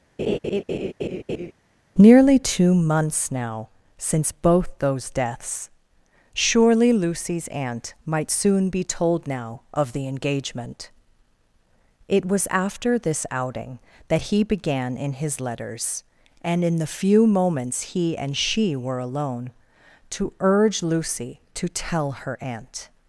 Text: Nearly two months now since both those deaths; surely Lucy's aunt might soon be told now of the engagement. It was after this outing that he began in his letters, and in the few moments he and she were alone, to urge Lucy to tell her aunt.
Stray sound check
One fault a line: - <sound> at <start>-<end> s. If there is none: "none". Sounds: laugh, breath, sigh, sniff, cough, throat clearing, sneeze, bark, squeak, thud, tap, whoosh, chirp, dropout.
- laugh at 0.2-1.5 s